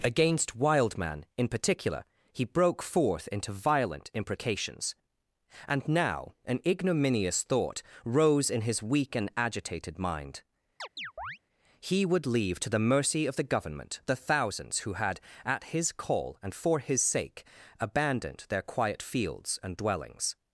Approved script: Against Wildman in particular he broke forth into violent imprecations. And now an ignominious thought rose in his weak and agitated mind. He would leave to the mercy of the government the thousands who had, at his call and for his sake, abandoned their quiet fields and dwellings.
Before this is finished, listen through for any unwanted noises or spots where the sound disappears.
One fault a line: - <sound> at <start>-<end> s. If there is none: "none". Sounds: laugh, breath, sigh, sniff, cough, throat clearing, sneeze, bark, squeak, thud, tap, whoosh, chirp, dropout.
- chirp at 10.8-11.4 s